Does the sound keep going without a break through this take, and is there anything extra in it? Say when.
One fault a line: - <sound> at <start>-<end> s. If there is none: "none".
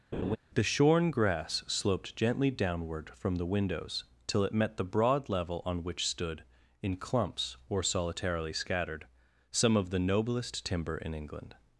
- laugh at 0.1-0.4 s